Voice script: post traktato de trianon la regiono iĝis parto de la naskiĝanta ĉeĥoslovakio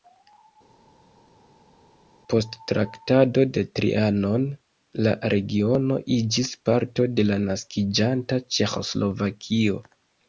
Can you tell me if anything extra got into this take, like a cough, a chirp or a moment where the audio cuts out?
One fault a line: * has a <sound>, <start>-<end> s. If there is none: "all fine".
all fine